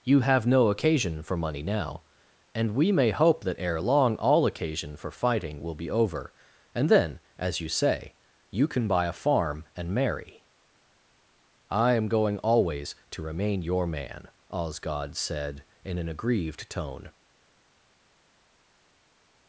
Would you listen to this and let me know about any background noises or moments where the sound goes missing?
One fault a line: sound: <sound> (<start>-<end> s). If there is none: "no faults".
no faults